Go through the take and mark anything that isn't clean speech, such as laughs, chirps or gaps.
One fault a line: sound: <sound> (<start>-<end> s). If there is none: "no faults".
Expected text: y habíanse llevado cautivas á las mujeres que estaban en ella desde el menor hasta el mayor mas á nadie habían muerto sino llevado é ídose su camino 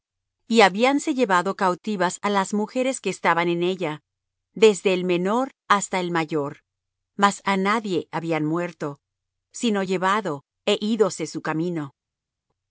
no faults